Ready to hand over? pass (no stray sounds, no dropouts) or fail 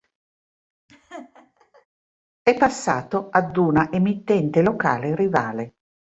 fail